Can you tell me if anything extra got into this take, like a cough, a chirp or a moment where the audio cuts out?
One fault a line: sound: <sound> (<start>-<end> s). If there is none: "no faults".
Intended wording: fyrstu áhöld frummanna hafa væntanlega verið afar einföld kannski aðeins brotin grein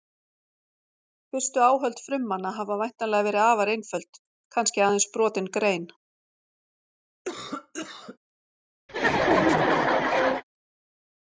sound: cough (7.2-8.2 s)
sound: laugh (8.9-10.4 s)